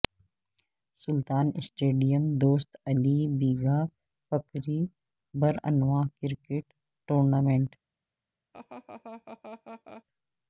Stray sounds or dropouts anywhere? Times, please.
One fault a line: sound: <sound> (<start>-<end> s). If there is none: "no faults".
sound: laugh (8.5-10.0 s)